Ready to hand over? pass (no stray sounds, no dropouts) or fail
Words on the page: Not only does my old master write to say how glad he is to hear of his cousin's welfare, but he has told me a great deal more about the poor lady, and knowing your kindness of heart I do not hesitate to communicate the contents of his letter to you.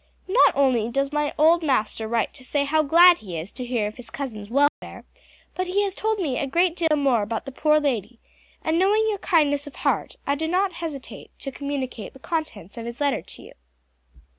fail